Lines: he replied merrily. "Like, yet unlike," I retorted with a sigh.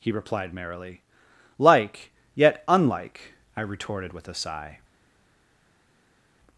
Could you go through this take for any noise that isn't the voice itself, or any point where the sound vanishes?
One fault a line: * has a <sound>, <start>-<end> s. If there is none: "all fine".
all fine